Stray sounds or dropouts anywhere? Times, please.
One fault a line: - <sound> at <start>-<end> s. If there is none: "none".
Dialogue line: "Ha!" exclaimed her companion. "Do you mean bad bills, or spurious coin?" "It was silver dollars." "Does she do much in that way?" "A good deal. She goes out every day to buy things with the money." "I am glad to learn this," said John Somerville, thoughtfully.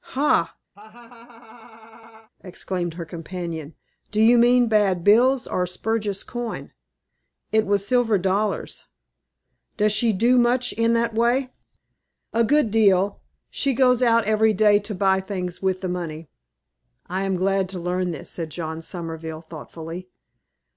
- laugh at 0.7-2.3 s